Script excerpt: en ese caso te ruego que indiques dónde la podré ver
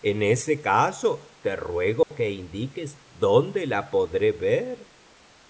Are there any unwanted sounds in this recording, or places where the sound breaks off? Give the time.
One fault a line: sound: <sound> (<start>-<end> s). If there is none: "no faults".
sound: dropout (2.0-2.1 s)